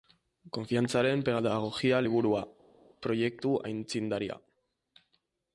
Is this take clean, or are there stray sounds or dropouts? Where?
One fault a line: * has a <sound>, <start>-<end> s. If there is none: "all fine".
all fine